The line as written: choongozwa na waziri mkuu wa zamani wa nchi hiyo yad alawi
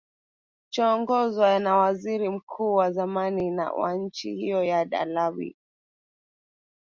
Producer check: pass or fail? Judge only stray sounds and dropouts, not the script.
pass